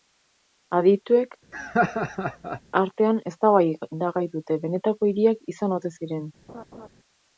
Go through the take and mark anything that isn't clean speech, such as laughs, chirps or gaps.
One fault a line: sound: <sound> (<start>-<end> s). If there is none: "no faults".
sound: laugh (1.5-2.6 s)
sound: laugh (6.5-6.9 s)